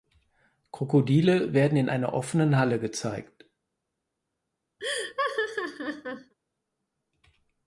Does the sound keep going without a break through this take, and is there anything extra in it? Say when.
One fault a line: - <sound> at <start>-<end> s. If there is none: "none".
- laugh at 4.8-6.3 s